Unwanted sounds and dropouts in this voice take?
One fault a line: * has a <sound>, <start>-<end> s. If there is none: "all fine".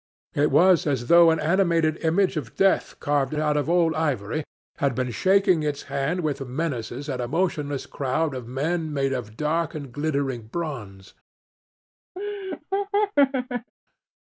* has a laugh, 12.2-13.7 s